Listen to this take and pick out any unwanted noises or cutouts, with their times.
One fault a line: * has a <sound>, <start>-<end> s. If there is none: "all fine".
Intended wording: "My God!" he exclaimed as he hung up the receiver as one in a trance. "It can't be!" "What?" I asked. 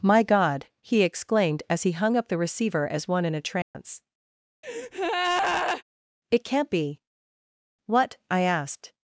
* has a dropout, 3.6-3.7 s
* has a breath, 4.6-5.8 s